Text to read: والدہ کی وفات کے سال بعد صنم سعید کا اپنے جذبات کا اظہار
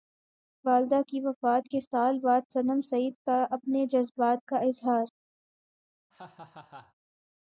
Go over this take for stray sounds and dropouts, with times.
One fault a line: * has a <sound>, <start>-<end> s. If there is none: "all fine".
* has a laugh, 6.1-6.9 s